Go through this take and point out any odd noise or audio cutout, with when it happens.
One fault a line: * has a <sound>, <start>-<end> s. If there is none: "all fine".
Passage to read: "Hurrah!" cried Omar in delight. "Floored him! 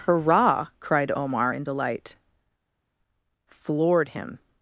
all fine